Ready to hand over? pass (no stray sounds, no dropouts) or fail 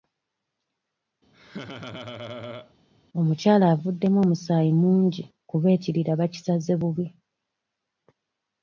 fail